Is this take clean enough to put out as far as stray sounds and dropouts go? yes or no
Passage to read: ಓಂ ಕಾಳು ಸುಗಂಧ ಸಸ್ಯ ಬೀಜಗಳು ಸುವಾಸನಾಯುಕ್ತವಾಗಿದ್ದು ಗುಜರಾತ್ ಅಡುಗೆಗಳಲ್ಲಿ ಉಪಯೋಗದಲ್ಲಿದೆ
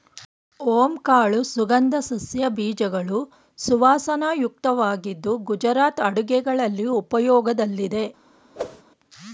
no